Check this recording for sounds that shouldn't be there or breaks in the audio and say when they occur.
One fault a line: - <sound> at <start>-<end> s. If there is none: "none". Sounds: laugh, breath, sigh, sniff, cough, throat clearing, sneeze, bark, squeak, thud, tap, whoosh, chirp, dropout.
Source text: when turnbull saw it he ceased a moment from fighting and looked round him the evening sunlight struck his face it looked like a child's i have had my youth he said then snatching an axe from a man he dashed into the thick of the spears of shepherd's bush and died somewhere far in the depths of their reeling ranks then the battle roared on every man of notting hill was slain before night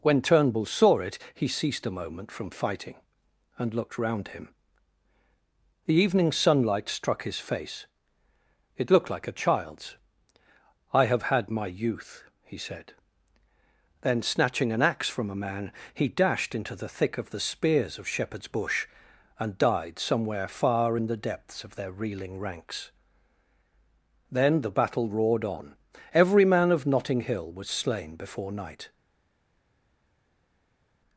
none